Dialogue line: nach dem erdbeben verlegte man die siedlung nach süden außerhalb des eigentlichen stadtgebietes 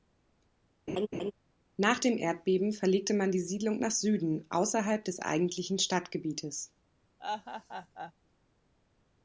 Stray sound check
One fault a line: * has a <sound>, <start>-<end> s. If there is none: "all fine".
* has a laugh, 0.9-1.3 s
* has a laugh, 7.2-8.1 s